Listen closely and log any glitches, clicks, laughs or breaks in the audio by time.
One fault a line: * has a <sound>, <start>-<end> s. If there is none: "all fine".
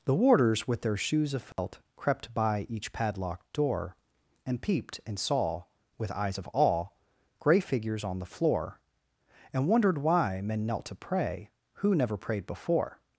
* has a dropout, 1.5-1.6 s